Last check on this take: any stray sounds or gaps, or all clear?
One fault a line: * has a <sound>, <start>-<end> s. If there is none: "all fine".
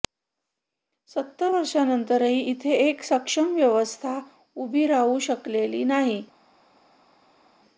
all fine